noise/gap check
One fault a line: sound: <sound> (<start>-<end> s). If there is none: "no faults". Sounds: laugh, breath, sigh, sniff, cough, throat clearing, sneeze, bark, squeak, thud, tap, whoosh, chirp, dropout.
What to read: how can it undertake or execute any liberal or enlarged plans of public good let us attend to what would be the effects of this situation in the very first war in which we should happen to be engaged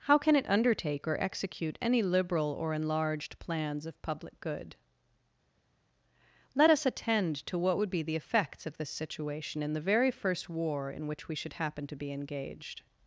no faults